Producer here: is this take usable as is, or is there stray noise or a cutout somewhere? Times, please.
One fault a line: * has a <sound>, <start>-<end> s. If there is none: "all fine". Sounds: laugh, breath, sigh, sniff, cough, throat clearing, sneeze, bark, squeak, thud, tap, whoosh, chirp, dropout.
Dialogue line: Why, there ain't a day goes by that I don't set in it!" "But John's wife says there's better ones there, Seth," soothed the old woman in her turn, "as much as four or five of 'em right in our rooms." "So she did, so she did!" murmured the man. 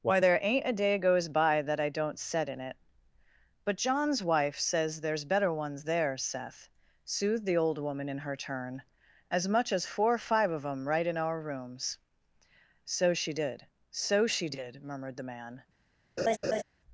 * has a laugh, 16.2-16.6 s